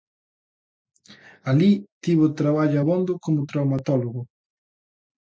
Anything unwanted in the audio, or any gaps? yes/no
no